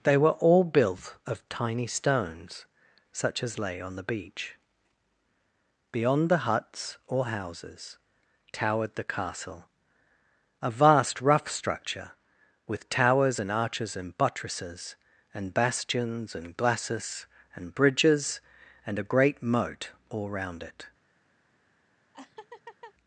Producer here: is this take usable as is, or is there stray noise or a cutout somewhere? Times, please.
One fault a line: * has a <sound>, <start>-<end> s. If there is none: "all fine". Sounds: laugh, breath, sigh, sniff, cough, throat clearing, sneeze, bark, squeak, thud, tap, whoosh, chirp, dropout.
* has a laugh, 22.1-22.9 s